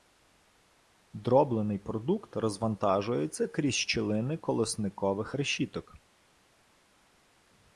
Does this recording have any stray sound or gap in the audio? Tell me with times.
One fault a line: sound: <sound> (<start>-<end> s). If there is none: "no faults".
no faults